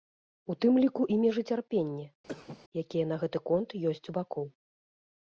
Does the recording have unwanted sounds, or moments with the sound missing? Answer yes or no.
yes